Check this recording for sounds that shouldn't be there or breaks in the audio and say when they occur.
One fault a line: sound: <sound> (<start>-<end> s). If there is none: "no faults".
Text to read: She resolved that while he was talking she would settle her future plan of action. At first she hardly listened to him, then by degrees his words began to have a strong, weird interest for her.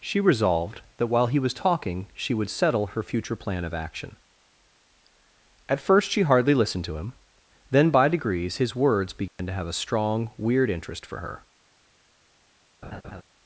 sound: dropout (9.3-9.4 s)
sound: laugh (12.8-13.2 s)